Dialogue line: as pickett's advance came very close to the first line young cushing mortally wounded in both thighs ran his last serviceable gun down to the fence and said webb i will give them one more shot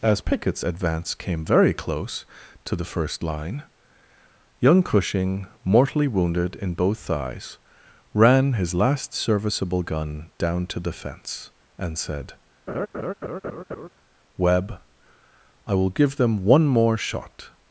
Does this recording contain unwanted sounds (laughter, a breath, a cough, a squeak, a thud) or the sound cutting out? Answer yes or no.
yes